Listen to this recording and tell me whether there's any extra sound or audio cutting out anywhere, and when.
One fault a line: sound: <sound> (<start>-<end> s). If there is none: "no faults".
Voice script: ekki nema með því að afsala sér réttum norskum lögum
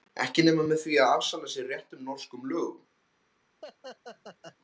sound: laugh (3.6-4.6 s)